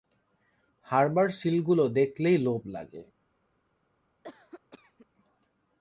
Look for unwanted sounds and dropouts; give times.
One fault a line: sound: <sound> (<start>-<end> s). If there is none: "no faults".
sound: cough (4.2-5.1 s)